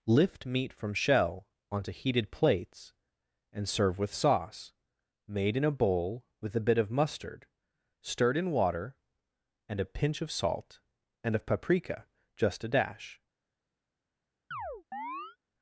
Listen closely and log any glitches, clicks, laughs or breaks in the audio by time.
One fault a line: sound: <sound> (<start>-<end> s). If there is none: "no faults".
sound: chirp (14.5-15.4 s)